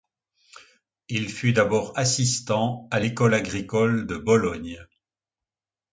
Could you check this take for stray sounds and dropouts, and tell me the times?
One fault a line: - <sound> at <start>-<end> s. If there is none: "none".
none